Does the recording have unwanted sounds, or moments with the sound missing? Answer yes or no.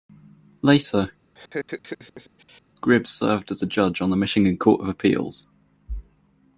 yes